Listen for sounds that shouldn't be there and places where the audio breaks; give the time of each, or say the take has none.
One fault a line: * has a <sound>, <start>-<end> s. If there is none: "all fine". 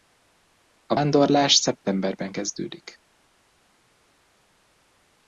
all fine